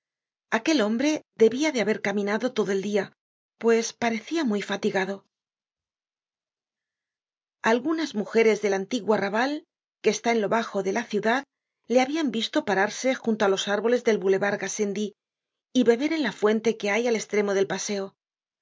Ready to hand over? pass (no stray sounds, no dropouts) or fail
pass